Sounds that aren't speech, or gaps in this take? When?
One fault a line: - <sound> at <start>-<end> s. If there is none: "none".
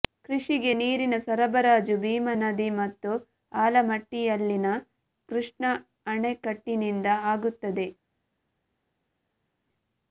none